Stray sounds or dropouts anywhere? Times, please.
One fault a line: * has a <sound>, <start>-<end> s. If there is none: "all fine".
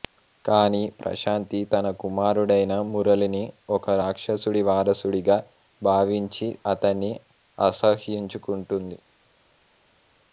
all fine